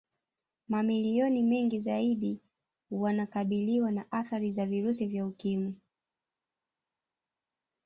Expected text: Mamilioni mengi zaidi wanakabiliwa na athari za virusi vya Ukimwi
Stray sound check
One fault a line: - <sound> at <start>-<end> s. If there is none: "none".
none